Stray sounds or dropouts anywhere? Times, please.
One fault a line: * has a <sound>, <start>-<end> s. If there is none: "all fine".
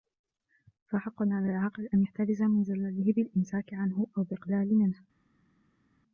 all fine